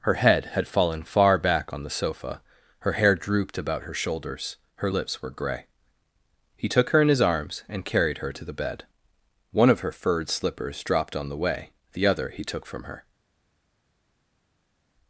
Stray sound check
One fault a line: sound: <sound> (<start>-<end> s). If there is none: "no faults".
no faults